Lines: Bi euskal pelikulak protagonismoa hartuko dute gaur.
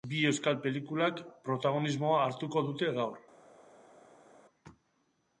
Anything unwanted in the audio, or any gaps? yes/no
no